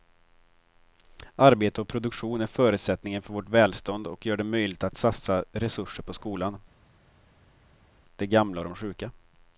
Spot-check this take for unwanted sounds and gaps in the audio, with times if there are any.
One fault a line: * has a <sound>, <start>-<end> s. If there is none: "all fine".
all fine